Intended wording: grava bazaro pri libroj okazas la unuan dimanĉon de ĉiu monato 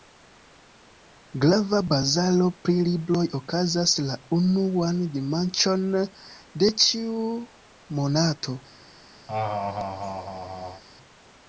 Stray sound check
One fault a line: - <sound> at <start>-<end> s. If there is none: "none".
- laugh at 9.3-10.8 s